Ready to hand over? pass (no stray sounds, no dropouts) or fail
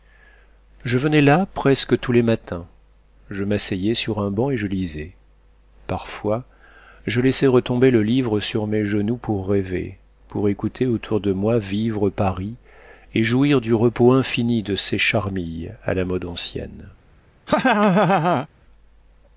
fail